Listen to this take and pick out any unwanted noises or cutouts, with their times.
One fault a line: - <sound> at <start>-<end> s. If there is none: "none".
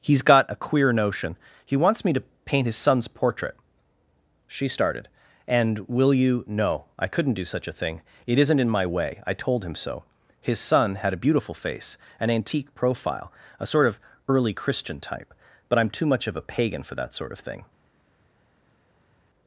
none